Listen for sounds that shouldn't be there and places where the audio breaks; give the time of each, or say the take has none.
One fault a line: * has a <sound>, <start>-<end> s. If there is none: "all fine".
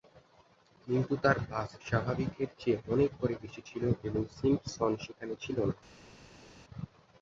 all fine